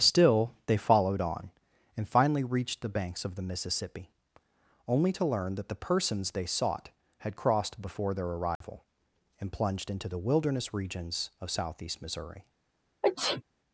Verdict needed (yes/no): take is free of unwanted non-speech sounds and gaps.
no